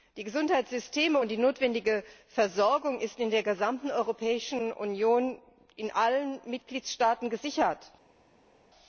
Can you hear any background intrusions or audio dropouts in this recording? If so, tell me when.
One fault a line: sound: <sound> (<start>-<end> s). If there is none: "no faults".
no faults